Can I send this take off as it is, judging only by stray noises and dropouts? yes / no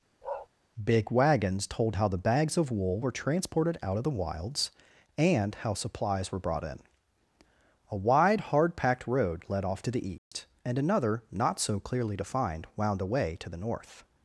no